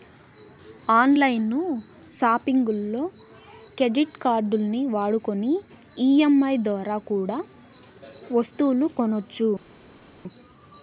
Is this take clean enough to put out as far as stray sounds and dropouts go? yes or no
yes